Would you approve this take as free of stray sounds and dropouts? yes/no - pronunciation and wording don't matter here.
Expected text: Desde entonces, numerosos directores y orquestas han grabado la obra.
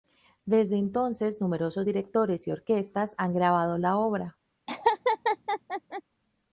no